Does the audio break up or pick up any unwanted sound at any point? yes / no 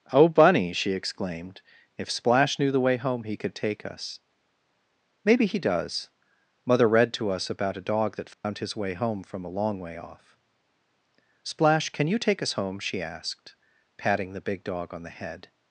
yes